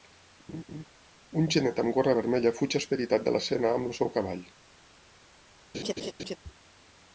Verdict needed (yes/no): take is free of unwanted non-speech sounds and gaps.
no